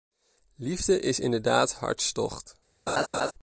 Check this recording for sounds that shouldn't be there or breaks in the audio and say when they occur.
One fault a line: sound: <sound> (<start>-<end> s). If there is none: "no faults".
sound: laugh (2.9-3.3 s)